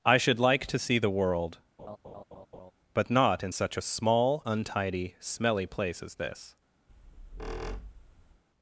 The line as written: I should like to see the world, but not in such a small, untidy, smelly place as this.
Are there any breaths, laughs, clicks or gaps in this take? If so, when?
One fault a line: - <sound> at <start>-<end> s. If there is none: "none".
- laugh at 1.8-2.7 s
- squeak at 6.9-8.4 s